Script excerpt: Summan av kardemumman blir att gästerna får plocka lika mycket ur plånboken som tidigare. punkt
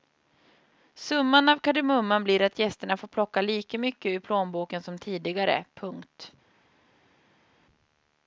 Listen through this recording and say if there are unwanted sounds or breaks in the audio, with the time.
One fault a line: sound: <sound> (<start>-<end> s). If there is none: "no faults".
no faults